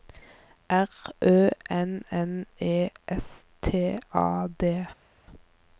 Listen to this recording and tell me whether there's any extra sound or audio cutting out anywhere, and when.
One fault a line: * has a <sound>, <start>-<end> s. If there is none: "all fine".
all fine